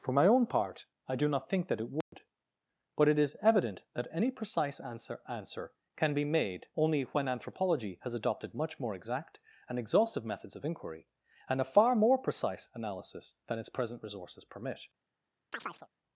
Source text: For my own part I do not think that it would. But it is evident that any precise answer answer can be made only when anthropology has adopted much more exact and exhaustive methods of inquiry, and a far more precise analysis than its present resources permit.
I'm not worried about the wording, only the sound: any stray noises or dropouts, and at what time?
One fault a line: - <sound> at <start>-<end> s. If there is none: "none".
- dropout at 2.0-2.1 s
- chirp at 15.5-15.9 s